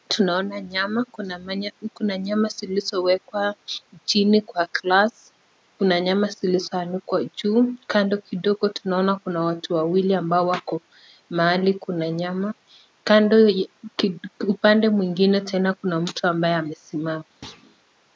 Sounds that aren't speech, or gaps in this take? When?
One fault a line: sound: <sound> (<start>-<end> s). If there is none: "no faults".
sound: thud (17.4-17.8 s)